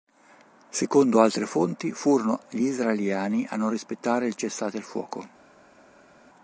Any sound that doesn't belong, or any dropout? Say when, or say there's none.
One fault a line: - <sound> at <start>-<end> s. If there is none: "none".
none